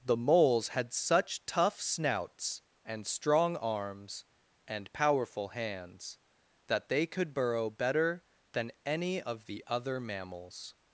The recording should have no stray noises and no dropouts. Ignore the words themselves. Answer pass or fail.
pass